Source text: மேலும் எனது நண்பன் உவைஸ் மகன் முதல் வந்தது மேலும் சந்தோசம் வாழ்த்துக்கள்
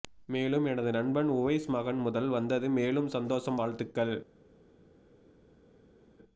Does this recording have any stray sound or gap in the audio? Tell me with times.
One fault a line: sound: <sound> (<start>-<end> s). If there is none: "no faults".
no faults